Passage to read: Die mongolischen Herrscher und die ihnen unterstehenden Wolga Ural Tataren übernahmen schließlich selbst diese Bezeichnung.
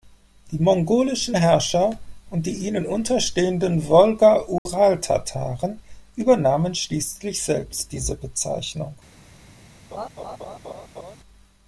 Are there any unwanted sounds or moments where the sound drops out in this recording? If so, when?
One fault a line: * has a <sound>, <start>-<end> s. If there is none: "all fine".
* has a dropout, 4.6-4.7 s
* has a laugh, 9.9-11.2 s